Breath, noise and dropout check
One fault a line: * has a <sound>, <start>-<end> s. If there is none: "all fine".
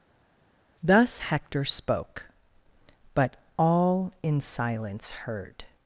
all fine